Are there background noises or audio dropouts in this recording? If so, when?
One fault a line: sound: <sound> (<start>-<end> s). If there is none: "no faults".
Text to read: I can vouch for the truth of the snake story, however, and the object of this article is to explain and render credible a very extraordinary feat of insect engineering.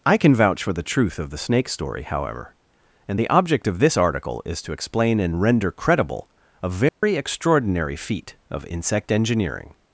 sound: dropout (6.9-7.0 s)